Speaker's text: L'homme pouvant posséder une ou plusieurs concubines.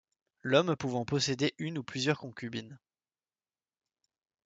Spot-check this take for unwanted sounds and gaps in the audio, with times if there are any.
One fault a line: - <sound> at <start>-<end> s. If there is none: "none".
none